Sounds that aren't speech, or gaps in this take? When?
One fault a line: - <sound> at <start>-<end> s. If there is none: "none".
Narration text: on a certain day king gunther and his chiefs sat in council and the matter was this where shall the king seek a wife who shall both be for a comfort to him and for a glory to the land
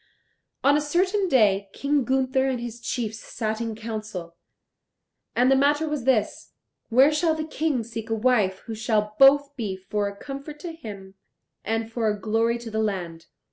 none